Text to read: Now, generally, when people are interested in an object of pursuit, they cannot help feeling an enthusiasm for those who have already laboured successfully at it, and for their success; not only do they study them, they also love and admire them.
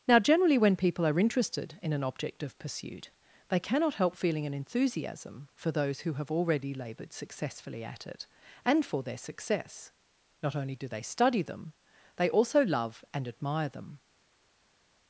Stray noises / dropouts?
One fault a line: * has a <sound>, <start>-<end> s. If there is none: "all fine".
all fine